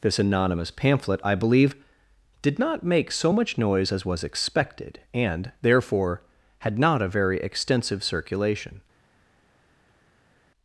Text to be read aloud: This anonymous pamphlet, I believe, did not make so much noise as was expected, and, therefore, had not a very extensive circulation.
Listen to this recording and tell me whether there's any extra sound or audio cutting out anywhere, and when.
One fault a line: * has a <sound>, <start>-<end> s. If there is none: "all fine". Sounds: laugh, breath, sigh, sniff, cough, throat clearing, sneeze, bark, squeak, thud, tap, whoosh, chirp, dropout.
all fine